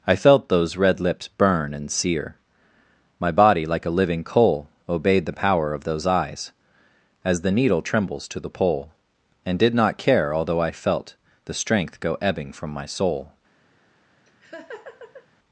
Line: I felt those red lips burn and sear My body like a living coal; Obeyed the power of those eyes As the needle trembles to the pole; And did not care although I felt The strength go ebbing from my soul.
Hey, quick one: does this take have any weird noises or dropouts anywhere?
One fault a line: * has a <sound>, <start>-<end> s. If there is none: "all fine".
* has a laugh, 14.3-15.3 s